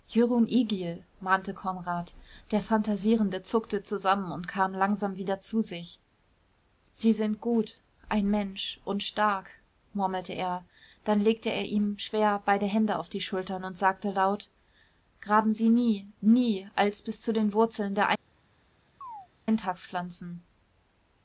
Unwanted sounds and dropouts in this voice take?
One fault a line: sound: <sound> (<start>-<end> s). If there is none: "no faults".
sound: chirp (19.0-19.3 s)